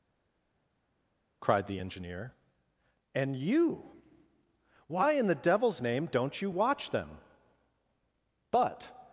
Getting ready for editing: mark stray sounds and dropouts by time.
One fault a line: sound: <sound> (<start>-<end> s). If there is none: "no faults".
no faults